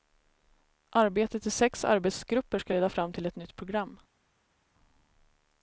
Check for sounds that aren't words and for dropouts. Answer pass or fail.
pass